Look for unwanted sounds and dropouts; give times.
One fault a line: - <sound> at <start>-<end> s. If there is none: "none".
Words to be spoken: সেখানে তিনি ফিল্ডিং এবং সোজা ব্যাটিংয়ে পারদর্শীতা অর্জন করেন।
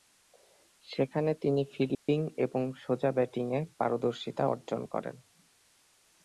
- dropout at 1.9-2.1 s